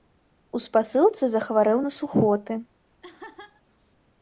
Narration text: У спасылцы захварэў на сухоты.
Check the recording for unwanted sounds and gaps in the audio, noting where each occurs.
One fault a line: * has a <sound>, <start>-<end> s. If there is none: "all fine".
* has a laugh, 3.0-3.6 s